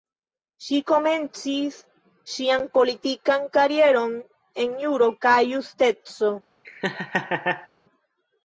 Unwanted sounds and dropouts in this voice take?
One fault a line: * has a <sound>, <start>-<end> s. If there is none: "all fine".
* has a laugh, 6.6-7.7 s